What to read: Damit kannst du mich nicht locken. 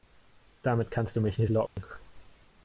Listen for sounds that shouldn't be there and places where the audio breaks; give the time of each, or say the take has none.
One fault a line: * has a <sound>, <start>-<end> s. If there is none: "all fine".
* has a dropout, 1.7-1.8 s